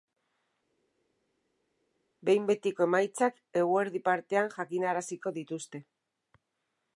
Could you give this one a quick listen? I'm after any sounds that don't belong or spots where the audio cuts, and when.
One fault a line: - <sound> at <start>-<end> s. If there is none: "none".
none